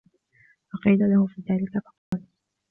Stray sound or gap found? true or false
true